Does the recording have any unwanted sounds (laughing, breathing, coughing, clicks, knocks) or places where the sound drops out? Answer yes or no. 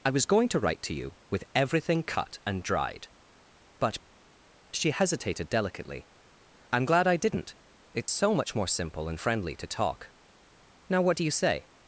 yes